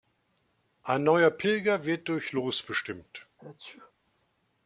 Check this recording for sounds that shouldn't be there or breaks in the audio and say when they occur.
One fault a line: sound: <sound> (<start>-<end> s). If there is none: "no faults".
sound: sneeze (3.4-3.9 s)